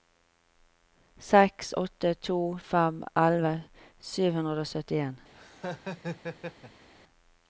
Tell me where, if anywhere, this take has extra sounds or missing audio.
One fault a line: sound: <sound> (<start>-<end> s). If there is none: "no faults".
sound: laugh (5.3-6.9 s)